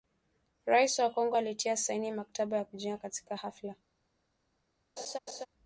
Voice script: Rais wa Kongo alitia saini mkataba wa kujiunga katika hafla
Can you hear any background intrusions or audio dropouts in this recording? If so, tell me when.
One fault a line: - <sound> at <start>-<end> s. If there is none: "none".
- laugh at 5.0-5.5 s